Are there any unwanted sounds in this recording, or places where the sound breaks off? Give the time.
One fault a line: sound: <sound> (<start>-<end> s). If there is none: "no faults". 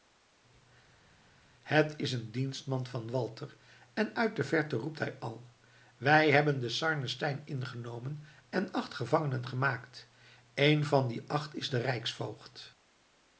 no faults